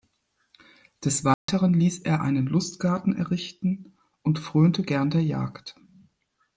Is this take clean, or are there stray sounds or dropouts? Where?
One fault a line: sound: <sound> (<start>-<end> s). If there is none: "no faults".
sound: dropout (1.3-1.5 s)